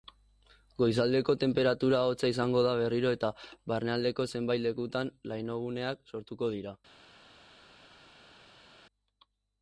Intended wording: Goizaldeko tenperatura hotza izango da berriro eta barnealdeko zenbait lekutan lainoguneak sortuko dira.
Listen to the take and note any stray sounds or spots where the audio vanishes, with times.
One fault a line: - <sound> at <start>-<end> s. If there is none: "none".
none